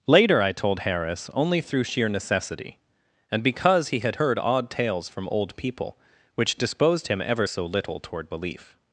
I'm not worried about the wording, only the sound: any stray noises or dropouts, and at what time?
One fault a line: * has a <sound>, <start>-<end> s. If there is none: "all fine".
all fine